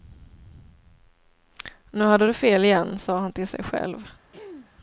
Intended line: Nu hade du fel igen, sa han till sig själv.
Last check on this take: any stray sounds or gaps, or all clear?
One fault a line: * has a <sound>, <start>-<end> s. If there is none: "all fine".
* has a throat clearing, 4.3-4.7 s